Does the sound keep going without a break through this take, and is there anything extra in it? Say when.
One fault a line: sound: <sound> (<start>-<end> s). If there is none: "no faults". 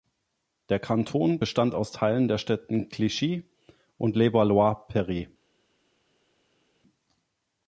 no faults